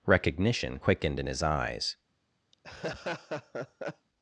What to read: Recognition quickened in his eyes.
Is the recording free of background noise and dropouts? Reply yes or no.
no